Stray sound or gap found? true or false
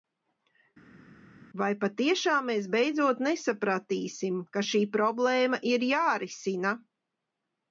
false